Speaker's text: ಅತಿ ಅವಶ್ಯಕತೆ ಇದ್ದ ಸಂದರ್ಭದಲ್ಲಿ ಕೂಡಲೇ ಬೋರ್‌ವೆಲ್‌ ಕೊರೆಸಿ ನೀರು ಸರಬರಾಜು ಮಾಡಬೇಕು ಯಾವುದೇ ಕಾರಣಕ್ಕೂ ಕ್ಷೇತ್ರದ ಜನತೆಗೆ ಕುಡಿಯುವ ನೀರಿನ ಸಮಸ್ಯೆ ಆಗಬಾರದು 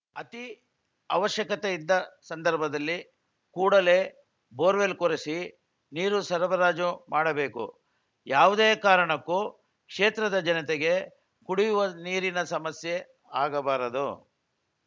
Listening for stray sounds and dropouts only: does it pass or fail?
pass